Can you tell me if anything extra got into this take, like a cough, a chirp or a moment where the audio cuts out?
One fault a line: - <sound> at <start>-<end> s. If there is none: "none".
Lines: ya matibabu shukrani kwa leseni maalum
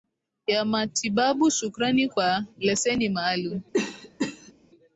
- cough at 3.7-4.5 s